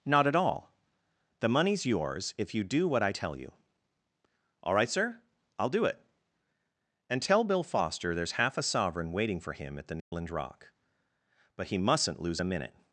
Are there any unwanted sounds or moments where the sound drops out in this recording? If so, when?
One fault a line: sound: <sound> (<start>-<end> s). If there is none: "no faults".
sound: dropout (10.0-10.1 s)